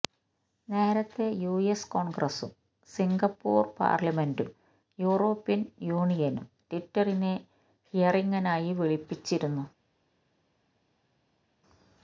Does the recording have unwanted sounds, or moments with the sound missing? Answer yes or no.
no